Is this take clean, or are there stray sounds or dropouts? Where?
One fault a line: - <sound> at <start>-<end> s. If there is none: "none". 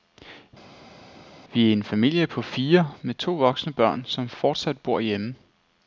none